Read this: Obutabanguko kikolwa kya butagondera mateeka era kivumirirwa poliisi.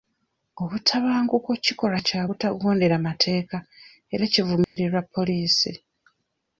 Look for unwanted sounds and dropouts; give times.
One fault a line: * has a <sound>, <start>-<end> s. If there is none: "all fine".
* has a dropout, 4.6-4.8 s